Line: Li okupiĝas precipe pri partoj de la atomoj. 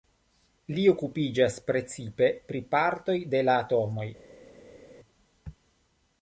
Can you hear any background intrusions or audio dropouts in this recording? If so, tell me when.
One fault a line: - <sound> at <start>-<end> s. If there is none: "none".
none